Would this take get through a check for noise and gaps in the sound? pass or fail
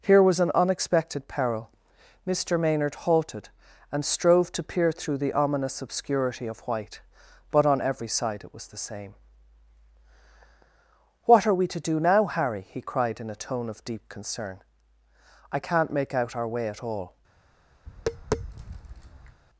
fail